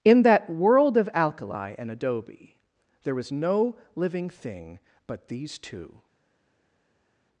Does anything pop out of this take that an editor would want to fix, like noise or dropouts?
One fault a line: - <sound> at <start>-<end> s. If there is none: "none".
none